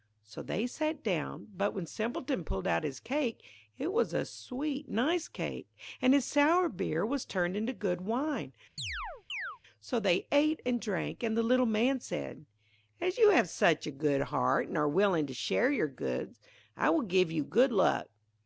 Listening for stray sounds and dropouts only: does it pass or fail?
fail